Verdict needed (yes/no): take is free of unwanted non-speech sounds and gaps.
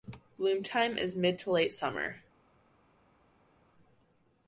yes